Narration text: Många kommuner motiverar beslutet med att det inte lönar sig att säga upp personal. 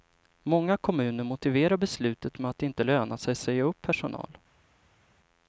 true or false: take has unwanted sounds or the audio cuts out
false